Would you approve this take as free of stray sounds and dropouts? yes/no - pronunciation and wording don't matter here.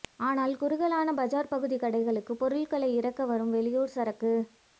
yes